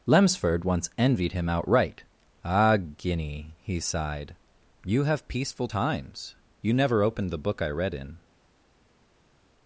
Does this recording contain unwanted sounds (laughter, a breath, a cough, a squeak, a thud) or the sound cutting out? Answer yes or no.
no